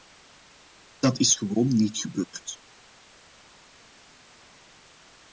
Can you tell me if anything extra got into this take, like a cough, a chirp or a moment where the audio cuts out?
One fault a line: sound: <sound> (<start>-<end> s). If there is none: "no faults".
no faults